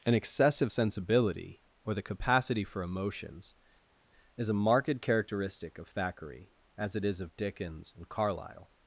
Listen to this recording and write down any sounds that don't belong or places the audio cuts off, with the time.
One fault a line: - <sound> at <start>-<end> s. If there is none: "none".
none